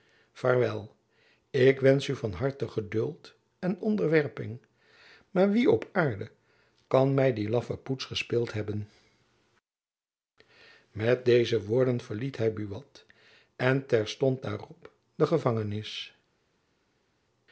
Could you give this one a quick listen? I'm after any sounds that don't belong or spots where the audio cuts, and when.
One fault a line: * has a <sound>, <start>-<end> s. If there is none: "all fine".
all fine